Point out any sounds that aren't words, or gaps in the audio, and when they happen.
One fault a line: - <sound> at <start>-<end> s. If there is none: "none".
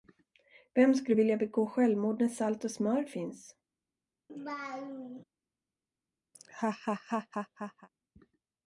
- laugh at 4.3-5.2 s
- laugh at 6.3-7.9 s